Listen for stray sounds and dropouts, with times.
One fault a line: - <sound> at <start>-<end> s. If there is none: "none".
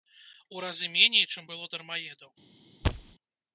- thud at 2.8-3.1 s